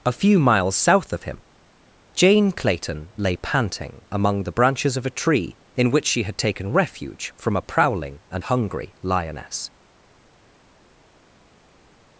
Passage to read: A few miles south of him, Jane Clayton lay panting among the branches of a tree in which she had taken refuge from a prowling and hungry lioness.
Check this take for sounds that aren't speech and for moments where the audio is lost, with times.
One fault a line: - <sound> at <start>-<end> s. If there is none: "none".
none